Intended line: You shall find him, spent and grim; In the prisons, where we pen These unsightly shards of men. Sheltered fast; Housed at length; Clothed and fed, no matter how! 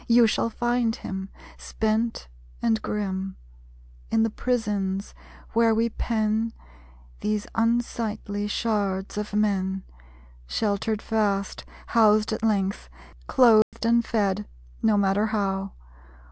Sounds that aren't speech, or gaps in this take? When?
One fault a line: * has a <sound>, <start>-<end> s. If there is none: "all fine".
* has a dropout, 13.6-13.7 s